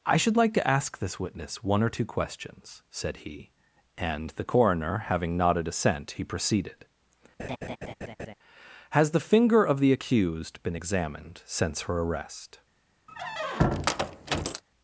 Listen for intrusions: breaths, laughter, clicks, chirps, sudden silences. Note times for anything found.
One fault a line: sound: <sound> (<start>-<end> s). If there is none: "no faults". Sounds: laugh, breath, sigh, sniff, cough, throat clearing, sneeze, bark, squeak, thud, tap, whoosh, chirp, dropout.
sound: laugh (7.4-8.3 s)
sound: squeak (13.1-14.6 s)